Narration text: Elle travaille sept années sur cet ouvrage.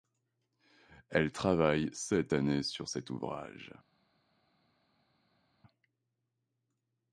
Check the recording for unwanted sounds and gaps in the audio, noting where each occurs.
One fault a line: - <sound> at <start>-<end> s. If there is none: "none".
none